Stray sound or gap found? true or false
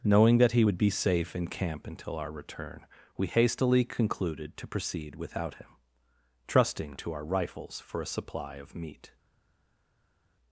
false